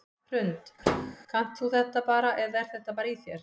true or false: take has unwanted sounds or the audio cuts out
true